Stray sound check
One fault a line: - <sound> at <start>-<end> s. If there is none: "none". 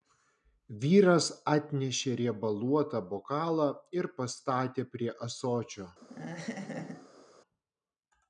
- laugh at 6.0-7.3 s